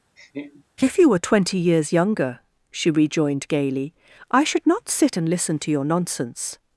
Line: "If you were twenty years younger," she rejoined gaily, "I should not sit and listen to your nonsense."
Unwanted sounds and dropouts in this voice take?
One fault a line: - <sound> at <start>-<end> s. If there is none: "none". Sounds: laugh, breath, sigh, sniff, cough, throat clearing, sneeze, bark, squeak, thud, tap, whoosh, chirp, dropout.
- laugh at 0.2-0.6 s